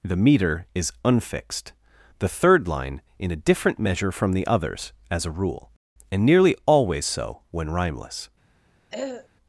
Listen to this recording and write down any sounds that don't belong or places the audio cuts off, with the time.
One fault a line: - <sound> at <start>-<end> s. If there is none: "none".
- throat clearing at 8.9-9.3 s